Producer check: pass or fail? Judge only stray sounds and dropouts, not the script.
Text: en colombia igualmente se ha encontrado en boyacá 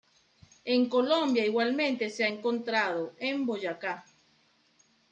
pass